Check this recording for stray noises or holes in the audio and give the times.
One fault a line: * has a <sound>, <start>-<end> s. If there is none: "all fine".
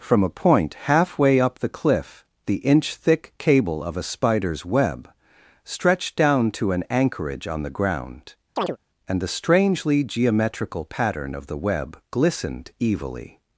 * has a chirp, 8.6-8.8 s